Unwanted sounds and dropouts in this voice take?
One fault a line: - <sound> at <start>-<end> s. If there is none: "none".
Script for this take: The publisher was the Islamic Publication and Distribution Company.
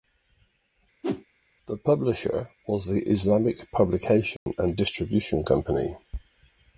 - whoosh at 1.0-1.2 s
- dropout at 4.4-4.5 s